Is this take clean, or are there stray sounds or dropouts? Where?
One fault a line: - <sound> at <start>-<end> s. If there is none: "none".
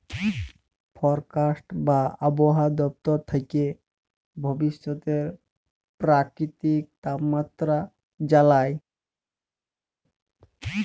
none